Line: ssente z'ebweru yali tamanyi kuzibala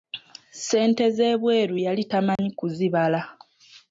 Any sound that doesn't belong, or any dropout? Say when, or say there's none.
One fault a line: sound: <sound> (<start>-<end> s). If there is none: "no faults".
sound: dropout (2.4-2.4 s)